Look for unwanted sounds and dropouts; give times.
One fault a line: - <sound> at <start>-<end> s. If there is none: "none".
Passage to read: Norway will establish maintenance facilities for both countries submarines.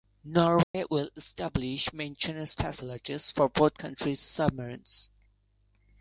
- dropout at 0.6-0.7 s